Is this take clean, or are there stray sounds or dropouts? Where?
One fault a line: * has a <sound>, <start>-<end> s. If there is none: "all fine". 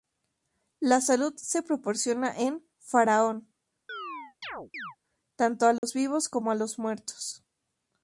* has a chirp, 3.9-5.0 s
* has a dropout, 5.8-5.8 s